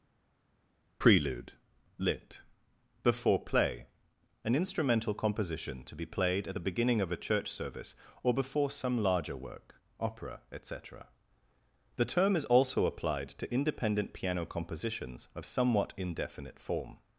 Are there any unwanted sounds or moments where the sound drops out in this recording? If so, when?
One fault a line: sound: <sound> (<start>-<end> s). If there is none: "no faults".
no faults